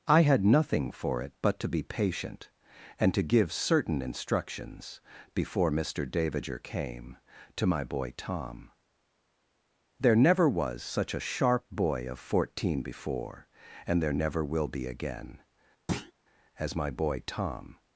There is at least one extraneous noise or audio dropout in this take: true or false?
true